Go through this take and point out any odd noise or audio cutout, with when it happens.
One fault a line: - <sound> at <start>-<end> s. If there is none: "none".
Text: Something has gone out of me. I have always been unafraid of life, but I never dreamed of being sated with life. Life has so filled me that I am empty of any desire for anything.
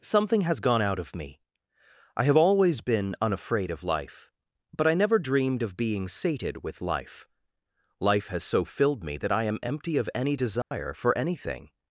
- dropout at 10.6-10.7 s